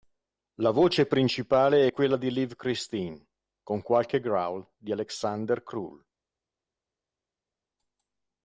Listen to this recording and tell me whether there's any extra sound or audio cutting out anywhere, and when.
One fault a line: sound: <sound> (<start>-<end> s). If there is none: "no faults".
no faults